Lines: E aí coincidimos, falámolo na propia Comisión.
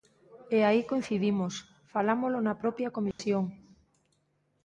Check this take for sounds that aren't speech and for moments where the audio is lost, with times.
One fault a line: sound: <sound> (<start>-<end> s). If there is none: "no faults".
sound: dropout (3.1-3.2 s)